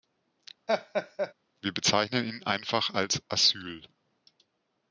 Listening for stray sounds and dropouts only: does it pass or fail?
fail